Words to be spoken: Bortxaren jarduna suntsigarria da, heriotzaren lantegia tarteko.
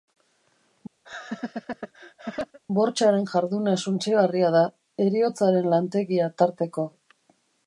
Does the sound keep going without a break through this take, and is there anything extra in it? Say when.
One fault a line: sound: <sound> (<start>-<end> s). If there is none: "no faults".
sound: laugh (1.0-2.6 s)